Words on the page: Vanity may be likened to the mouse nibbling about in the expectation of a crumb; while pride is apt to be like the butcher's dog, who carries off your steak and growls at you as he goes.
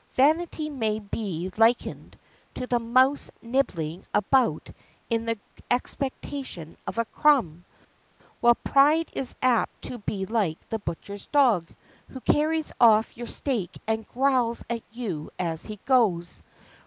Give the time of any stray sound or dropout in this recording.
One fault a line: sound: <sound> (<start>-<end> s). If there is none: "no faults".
no faults